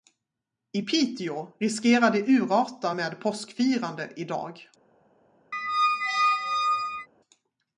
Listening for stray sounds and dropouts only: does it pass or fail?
fail